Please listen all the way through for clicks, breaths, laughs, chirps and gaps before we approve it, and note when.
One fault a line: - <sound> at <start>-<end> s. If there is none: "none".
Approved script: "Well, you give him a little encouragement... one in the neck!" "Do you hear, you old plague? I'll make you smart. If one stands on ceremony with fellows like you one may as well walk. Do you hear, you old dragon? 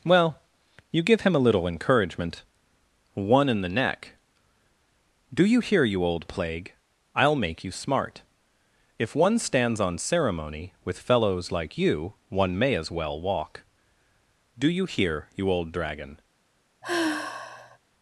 - sigh at 16.8-17.8 s